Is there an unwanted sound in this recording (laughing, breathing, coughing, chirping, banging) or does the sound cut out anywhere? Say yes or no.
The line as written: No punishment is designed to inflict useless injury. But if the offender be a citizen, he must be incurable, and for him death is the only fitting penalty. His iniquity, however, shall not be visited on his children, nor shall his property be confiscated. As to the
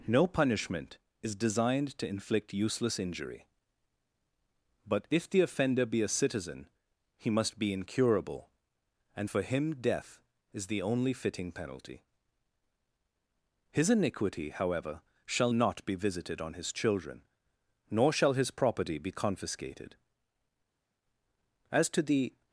no